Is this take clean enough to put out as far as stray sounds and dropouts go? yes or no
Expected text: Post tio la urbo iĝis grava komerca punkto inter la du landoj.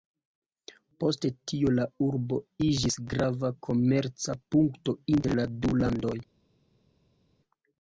yes